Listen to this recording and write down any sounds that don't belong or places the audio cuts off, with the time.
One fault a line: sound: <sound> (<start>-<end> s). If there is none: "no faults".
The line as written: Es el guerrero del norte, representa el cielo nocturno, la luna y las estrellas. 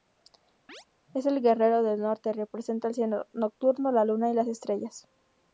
sound: chirp (0.7-0.9 s)